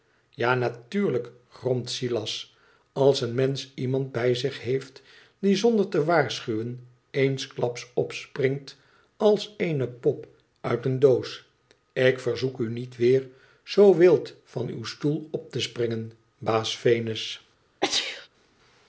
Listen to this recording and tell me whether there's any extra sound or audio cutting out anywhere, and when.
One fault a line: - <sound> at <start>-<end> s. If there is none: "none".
- sneeze at 17.8-18.3 s